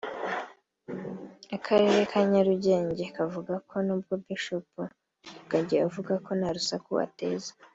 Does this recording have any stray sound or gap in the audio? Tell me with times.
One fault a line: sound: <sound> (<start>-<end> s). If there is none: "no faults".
no faults